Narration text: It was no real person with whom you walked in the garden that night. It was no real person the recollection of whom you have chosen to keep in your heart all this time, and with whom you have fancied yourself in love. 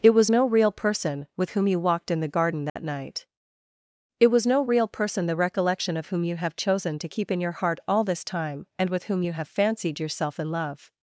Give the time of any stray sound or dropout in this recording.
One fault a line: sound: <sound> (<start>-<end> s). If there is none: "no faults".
sound: dropout (2.7-2.8 s)